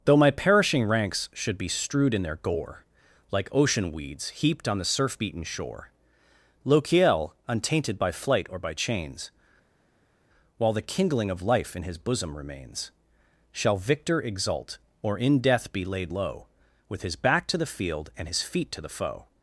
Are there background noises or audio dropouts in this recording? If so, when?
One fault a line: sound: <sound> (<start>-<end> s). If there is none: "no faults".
no faults